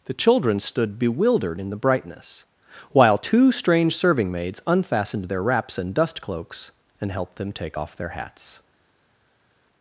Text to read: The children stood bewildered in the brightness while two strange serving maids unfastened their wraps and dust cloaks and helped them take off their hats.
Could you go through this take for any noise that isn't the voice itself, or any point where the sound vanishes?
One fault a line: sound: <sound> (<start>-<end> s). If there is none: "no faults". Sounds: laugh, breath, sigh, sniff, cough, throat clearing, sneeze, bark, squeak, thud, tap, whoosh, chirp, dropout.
no faults